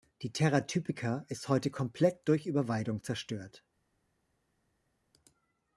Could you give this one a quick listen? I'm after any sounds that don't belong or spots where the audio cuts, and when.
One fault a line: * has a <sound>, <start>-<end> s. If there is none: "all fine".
all fine